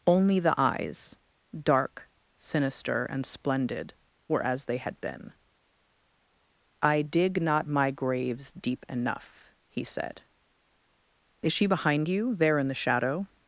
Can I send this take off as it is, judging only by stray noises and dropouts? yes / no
yes